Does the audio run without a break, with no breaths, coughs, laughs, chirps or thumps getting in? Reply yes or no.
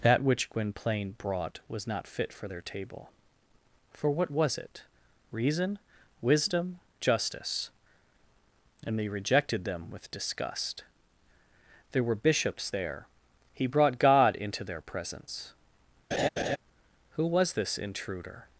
no